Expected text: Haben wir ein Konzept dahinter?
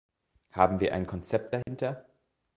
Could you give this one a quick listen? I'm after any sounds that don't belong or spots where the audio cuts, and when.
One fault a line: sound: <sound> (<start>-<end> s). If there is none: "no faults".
sound: dropout (1.6-1.7 s)